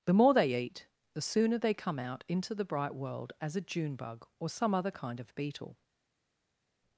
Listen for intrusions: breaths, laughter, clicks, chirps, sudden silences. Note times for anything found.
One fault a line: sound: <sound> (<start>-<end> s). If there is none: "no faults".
no faults